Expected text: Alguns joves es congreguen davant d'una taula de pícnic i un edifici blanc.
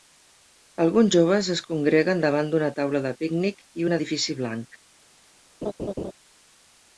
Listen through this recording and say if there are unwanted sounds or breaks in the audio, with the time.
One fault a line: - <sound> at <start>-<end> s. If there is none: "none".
- laugh at 5.6-6.1 s